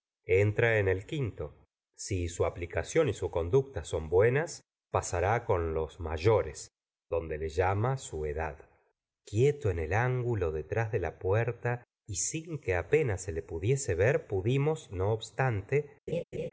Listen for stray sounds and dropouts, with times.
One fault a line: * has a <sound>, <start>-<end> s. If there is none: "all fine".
* has a laugh, 16.1-16.5 s